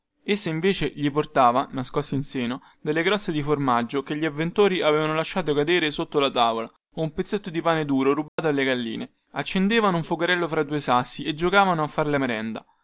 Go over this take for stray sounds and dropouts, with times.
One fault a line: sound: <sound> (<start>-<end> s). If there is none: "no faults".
sound: dropout (8.3-8.4 s)